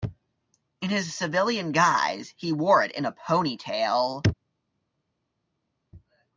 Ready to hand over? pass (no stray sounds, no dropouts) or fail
pass